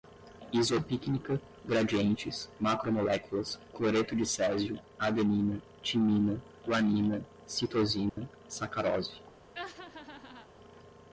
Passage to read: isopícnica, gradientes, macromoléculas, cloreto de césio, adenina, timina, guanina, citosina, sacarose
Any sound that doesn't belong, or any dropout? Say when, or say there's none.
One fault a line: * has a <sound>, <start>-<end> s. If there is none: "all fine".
* has a dropout, 8.1-8.2 s
* has a laugh, 9.5-10.5 s